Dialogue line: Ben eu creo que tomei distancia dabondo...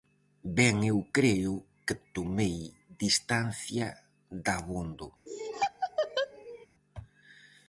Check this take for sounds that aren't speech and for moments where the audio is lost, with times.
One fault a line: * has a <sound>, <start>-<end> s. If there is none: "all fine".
* has a laugh, 5.3-6.7 s